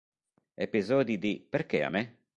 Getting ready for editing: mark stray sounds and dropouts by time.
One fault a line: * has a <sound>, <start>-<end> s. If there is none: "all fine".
all fine